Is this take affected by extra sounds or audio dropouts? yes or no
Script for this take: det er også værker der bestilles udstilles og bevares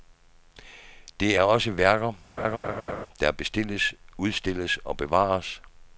yes